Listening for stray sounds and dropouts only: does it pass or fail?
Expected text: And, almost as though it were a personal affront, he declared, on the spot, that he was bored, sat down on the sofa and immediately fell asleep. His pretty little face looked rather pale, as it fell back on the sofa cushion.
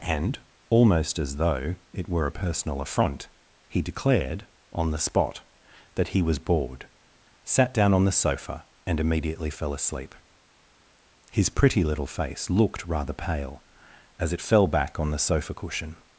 pass